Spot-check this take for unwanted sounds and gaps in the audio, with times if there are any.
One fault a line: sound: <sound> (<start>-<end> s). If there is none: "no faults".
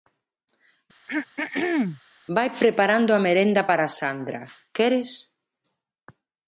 sound: throat clearing (1.1-2.0 s)